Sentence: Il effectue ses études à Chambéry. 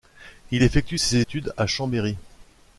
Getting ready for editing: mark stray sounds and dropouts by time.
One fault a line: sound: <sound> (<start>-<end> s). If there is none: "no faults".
no faults